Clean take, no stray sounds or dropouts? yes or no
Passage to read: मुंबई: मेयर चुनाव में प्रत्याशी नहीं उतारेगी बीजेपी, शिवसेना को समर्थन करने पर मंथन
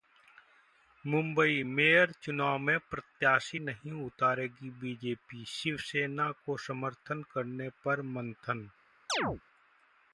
no